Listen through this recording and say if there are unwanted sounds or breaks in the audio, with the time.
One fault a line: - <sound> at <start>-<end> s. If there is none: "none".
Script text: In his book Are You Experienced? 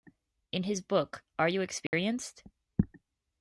- dropout at 1.9-1.9 s